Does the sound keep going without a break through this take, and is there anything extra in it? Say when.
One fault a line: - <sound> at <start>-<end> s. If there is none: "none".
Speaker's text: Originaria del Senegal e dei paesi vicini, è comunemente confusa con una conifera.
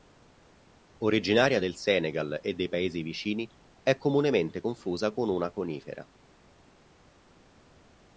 none